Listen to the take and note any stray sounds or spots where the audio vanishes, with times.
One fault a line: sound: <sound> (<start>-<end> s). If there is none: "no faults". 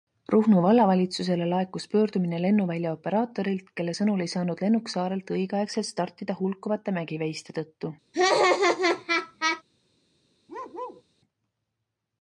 sound: laugh (8.1-9.6 s)
sound: bark (10.5-11.0 s)